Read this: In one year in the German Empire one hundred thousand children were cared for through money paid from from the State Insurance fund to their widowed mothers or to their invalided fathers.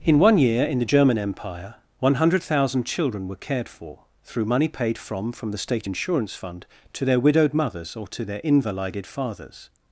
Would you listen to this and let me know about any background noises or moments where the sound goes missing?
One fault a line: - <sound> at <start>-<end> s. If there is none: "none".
none